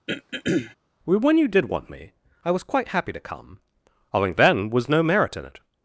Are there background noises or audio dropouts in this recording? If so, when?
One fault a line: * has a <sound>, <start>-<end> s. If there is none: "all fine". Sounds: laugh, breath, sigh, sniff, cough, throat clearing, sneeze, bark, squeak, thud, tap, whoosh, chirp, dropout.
* has a throat clearing, 0.1-0.8 s